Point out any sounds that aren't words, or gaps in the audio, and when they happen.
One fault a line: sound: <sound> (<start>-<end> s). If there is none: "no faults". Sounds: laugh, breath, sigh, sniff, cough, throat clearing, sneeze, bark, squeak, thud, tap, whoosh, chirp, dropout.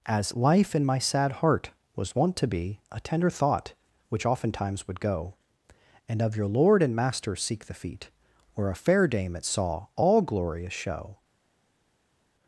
no faults